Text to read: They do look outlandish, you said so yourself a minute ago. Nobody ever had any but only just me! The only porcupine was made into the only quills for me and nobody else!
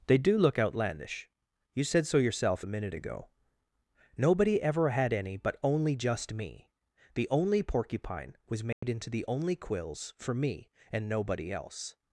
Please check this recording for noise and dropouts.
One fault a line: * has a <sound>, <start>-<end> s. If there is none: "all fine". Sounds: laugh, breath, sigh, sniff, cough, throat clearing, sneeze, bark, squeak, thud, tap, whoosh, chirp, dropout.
* has a dropout, 8.7-8.8 s